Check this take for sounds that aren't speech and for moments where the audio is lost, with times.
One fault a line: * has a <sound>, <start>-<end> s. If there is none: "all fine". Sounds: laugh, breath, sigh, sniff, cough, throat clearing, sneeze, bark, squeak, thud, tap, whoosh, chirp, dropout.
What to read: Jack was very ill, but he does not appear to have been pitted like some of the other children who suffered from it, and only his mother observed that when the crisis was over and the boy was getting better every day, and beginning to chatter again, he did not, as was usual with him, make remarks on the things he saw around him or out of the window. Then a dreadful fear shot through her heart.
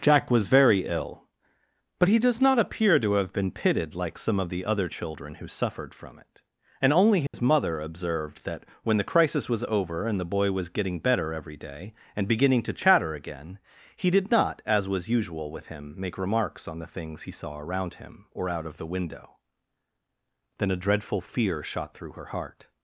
* has a dropout, 7.3-7.3 s